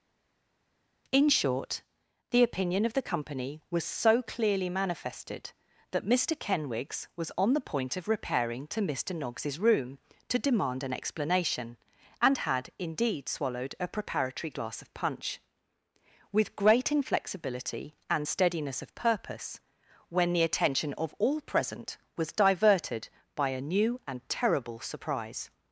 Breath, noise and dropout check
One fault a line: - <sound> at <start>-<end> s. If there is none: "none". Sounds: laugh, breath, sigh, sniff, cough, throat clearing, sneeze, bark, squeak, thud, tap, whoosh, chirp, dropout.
none